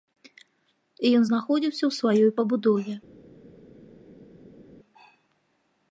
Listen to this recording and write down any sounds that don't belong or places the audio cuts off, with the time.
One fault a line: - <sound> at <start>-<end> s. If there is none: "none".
none